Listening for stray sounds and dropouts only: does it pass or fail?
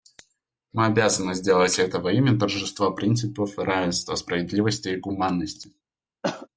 fail